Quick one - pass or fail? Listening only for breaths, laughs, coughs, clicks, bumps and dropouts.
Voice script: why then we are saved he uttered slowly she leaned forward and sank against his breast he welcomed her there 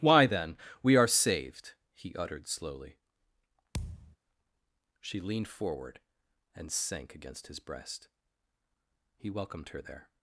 fail